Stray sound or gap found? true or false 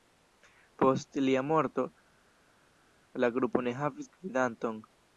false